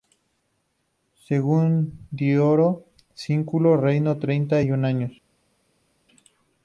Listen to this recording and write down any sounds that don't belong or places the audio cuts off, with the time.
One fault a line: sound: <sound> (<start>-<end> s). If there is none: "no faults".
no faults